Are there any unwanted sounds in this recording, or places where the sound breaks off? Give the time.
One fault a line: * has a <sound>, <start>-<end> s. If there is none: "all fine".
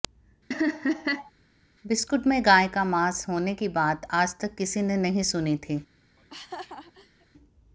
* has a laugh, 0.5-1.3 s
* has a laugh, 6.2-7.3 s